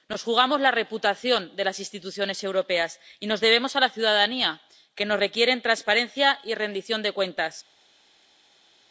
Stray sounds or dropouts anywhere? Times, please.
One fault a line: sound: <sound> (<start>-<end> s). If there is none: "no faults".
no faults